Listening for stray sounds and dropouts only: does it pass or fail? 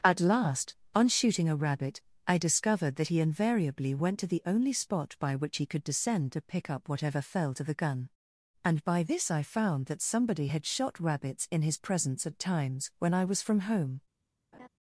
fail